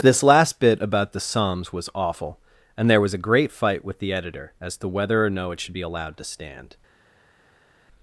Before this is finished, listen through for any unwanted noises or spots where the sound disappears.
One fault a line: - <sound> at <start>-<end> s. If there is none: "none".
none